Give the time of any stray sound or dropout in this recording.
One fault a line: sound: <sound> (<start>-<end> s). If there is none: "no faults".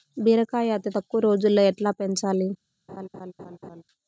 sound: laugh (2.9-3.8 s)